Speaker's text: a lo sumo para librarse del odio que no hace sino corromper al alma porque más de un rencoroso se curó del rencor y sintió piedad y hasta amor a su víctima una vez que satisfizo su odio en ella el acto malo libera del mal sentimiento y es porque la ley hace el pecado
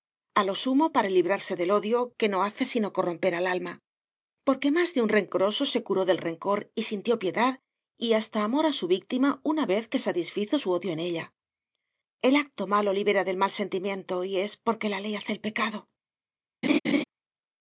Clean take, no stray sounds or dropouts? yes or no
no